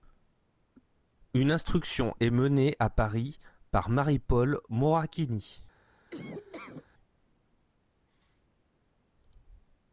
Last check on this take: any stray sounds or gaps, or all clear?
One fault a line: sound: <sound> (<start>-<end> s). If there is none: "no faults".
sound: laugh (6.1-6.9 s)